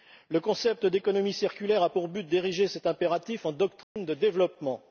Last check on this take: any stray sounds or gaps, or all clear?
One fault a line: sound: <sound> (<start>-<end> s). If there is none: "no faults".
sound: dropout (3.8-4.0 s)